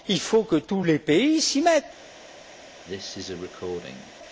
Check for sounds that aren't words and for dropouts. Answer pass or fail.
fail